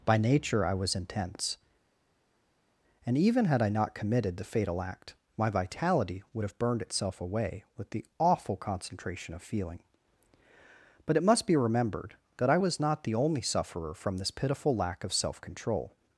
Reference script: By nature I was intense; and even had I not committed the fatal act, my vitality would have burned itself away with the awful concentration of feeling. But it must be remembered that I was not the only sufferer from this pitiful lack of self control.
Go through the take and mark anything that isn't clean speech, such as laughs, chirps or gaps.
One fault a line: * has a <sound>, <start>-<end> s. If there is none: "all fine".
all fine